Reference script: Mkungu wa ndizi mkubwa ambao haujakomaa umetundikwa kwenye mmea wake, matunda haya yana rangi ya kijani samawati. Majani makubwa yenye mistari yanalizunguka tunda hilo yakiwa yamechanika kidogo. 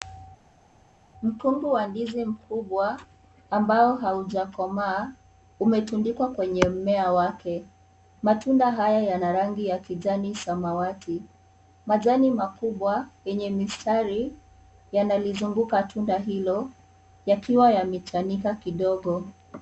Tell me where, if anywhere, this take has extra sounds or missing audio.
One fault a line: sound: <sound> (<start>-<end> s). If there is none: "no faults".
no faults